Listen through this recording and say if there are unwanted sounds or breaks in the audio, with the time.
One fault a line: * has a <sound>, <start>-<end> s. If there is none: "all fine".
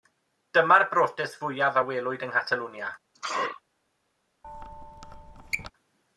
* has a sneeze, 3.1-3.6 s
* has a squeak, 4.4-5.7 s